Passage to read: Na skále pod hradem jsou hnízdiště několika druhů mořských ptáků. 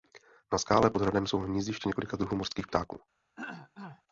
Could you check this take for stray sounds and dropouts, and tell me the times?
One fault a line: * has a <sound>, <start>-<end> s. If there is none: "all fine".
* has a throat clearing, 3.4-4.0 s